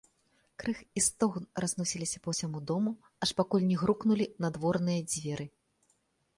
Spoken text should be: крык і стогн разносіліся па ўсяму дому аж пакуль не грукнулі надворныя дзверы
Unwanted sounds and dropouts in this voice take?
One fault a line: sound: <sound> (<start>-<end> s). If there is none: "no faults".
no faults